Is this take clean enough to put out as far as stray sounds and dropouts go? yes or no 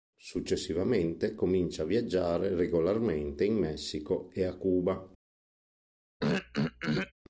no